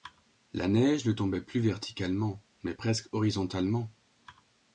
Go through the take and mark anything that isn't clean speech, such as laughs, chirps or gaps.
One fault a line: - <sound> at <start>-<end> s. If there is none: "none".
none